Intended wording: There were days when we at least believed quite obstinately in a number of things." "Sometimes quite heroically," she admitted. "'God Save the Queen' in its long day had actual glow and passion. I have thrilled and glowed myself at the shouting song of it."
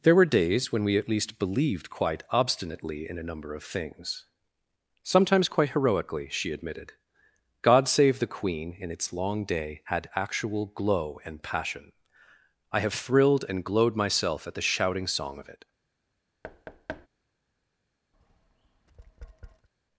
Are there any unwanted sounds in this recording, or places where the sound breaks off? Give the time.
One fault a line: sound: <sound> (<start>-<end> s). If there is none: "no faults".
sound: thud (16.4-17.1 s)
sound: tap (18.1-19.7 s)